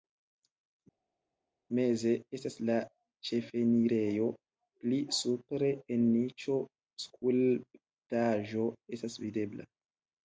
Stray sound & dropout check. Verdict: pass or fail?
pass